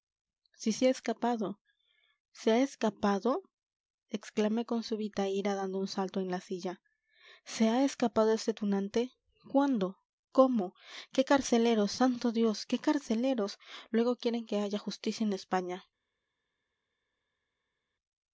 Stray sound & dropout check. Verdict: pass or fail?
pass